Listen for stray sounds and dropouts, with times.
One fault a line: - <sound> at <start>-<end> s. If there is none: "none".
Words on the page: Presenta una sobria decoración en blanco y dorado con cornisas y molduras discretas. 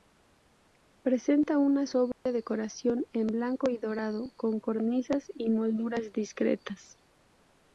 - dropout at 2.1-2.3 s